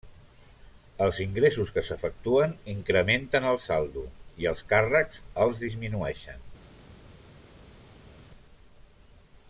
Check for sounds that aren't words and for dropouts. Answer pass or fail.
pass